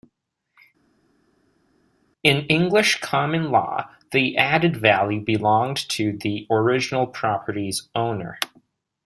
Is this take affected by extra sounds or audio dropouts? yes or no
no